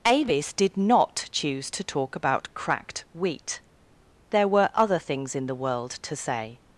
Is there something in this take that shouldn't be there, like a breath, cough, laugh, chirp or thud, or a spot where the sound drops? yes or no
no